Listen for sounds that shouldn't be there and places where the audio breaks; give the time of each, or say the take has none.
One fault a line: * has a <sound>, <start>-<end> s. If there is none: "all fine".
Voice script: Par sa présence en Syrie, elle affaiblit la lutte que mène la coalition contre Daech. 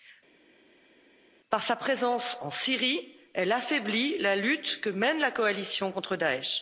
all fine